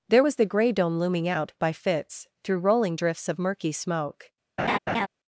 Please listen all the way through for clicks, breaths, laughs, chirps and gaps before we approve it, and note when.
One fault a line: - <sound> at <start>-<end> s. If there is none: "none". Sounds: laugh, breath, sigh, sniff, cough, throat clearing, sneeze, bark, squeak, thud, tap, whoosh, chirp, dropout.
- laugh at 4.6-5.1 s